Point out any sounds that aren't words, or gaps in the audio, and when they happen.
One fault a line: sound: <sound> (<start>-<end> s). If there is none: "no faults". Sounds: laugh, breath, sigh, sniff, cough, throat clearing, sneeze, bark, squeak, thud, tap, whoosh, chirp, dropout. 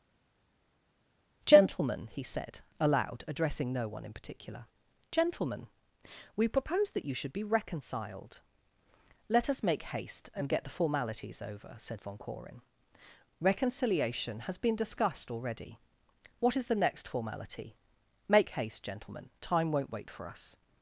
no faults